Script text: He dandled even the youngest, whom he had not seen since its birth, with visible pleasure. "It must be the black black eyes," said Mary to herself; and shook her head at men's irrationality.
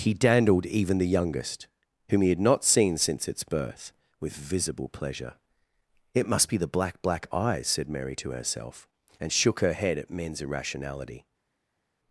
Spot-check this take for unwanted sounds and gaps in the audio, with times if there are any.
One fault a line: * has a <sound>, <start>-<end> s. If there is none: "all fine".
all fine